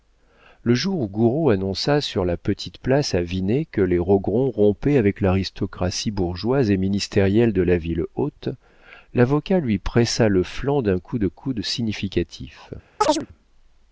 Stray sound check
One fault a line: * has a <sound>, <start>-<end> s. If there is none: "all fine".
* has a chirp, 13.0-13.3 s